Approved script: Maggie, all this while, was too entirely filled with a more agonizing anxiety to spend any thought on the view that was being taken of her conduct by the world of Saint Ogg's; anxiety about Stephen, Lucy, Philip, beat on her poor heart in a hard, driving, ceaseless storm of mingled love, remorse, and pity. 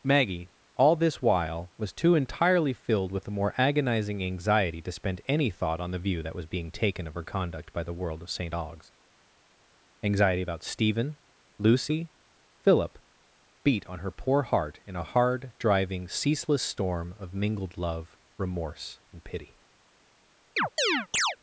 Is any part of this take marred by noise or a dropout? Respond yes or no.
yes